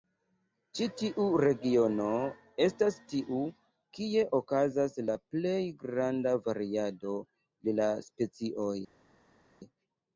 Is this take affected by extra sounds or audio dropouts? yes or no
no